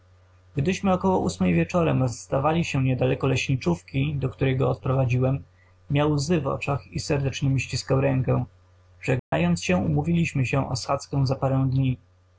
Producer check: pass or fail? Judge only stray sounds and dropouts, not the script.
fail